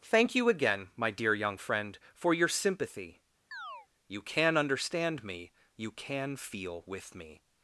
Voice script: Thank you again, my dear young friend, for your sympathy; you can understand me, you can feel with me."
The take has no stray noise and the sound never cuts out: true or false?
false